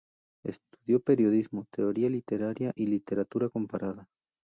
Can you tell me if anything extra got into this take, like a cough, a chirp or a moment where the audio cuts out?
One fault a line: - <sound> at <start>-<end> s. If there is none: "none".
none